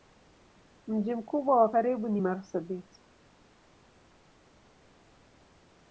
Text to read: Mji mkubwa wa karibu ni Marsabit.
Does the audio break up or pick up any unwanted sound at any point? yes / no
no